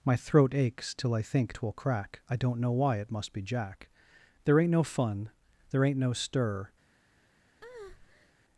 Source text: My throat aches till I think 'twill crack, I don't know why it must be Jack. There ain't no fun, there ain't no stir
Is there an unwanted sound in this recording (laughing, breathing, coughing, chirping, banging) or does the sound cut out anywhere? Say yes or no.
yes